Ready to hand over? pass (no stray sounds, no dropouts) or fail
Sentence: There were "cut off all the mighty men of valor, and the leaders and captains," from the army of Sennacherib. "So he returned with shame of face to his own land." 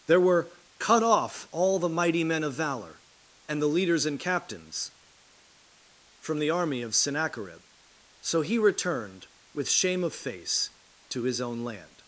pass